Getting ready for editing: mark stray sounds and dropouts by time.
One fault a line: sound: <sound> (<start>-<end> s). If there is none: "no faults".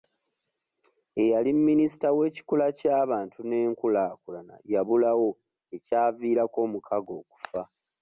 no faults